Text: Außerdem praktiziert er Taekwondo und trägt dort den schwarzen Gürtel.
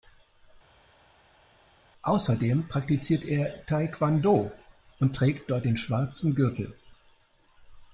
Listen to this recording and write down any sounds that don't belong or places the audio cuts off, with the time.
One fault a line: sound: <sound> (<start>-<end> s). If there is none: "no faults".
no faults